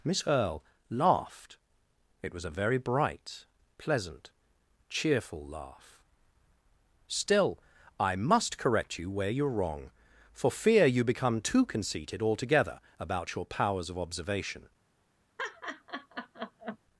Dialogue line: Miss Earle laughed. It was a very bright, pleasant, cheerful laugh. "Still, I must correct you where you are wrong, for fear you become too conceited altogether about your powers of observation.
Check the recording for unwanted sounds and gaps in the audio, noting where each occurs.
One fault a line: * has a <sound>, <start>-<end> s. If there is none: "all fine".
* has a laugh, 15.4-16.8 s